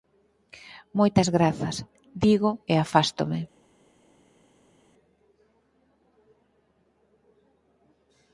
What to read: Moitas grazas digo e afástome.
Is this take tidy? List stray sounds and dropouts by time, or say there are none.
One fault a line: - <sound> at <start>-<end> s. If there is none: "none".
none